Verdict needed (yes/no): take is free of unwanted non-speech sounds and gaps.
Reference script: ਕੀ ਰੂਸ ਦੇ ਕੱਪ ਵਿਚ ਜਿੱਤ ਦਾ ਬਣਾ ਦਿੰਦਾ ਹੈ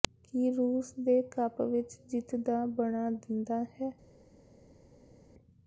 yes